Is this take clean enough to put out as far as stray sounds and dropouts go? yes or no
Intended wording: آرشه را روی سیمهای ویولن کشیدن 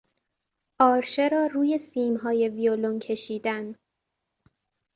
yes